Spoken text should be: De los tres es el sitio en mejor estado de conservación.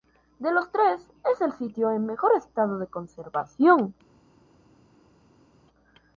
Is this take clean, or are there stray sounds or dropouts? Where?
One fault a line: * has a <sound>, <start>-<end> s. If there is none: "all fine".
all fine